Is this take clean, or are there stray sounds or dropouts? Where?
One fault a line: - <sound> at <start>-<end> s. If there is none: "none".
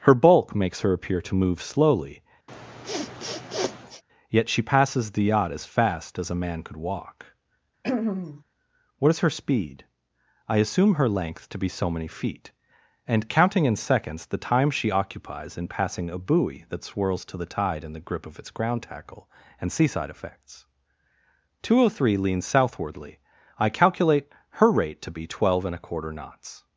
- sniff at 2.5-4.0 s
- throat clearing at 7.8-8.4 s